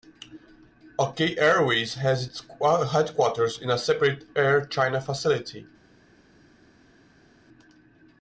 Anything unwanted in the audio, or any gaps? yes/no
no